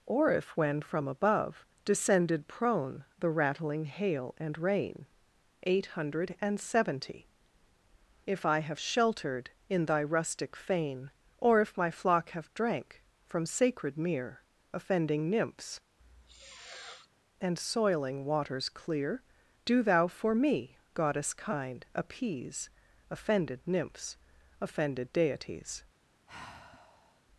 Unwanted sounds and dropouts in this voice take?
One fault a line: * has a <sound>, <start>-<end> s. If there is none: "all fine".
* has a sniff, 16.0-17.1 s
* has a sigh, 26.3-27.2 s